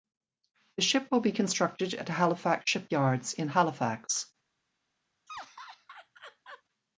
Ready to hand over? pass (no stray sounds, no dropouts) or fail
fail